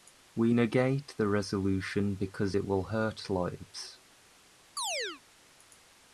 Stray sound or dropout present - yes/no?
yes